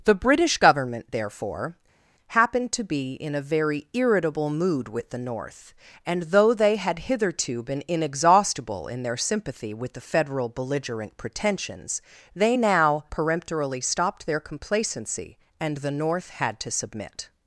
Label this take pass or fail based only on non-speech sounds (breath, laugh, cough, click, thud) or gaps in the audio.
pass